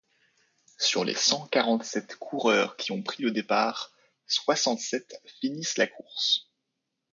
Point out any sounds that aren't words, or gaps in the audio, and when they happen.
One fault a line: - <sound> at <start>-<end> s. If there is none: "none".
none